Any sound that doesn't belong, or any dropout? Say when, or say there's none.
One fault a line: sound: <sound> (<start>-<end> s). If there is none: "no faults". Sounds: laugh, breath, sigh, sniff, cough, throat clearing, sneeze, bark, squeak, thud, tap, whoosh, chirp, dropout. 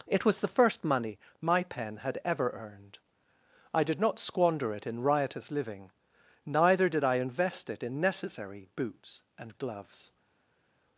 no faults